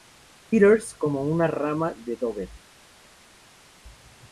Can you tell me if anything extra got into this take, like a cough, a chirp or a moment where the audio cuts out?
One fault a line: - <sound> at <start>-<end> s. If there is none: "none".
none